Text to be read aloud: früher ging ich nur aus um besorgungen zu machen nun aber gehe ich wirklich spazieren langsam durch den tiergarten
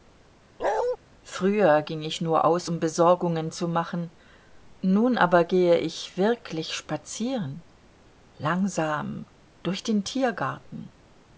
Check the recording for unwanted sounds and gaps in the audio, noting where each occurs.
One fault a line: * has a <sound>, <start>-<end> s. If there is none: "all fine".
* has a bark, 0.6-1.0 s